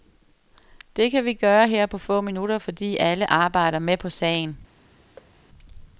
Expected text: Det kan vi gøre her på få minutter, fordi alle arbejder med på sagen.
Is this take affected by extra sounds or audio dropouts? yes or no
yes